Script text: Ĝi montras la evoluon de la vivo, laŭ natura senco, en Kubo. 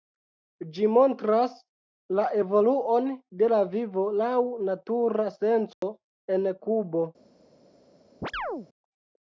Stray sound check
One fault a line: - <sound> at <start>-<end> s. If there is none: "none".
- dropout at 5.7-5.8 s
- chirp at 8.2-8.7 s